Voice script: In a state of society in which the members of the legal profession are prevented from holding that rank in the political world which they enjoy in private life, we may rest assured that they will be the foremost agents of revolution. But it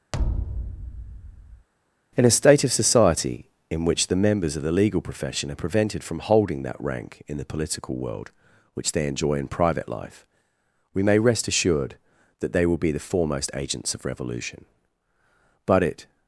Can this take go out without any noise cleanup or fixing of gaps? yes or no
no